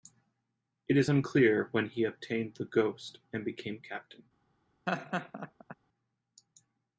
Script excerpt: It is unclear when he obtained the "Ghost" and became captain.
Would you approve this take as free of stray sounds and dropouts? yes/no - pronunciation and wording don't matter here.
no